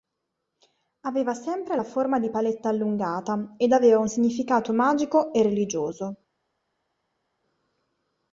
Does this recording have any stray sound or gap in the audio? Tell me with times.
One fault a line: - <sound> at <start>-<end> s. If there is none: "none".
none